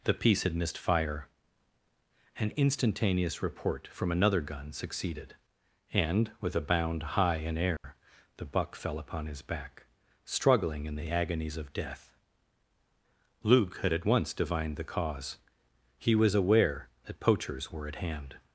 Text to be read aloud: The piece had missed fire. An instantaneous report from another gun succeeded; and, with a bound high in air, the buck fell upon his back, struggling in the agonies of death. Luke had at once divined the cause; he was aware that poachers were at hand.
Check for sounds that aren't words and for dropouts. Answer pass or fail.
fail